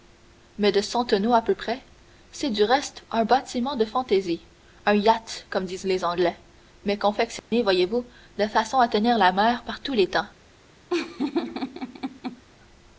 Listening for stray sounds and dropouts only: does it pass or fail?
fail